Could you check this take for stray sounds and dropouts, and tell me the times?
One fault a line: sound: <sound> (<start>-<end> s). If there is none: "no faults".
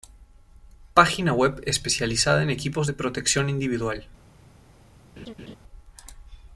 sound: laugh (5.2-5.6 s)